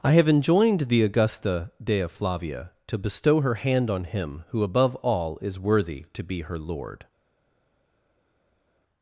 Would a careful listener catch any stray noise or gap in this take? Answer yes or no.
no